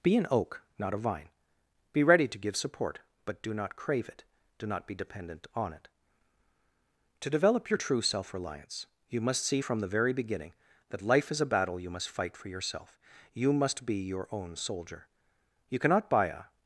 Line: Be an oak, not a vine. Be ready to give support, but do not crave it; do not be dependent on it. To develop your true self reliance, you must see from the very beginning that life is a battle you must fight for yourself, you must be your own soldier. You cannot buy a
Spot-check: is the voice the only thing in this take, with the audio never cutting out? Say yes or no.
yes